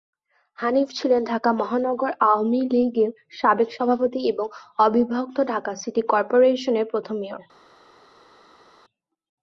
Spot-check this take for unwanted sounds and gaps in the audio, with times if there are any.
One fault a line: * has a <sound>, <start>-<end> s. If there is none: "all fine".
all fine